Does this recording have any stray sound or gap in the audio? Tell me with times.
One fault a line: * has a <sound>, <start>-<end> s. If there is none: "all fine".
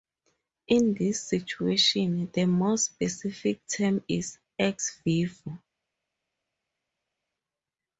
all fine